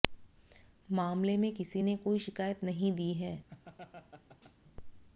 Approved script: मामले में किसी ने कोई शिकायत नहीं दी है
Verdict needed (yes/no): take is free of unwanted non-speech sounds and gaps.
no